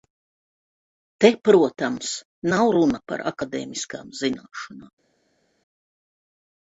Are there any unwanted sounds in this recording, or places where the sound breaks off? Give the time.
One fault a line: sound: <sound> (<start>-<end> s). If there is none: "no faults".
no faults